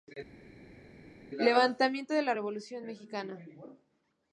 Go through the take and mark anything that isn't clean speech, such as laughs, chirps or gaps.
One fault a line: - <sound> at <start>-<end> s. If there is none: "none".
none